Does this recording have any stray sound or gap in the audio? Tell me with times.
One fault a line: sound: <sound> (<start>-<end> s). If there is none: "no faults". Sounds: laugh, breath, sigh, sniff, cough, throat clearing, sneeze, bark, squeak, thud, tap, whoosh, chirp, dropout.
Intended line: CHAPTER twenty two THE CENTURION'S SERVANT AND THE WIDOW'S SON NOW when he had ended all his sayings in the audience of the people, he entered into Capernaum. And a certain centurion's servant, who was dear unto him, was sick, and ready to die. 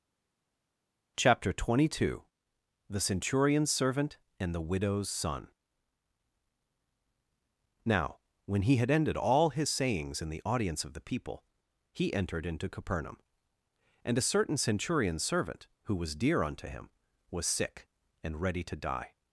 no faults